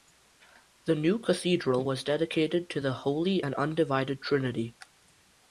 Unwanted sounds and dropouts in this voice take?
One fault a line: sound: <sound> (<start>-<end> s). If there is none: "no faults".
no faults